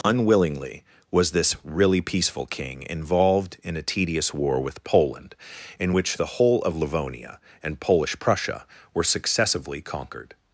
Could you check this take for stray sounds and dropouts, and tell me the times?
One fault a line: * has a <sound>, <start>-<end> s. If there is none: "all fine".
all fine